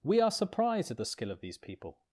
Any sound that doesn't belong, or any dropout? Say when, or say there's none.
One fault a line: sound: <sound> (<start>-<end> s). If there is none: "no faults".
no faults